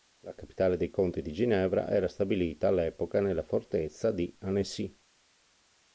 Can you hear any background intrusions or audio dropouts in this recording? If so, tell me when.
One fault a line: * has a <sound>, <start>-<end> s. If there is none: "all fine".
all fine